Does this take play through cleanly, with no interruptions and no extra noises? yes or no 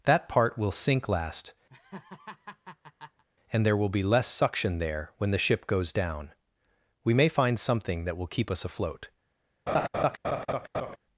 no